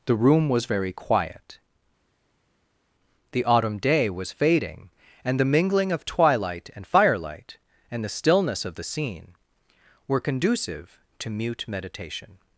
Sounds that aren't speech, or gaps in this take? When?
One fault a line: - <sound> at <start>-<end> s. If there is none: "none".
none